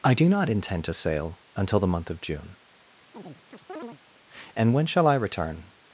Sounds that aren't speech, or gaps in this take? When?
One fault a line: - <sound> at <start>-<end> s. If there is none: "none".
- chirp at 3.1-4.0 s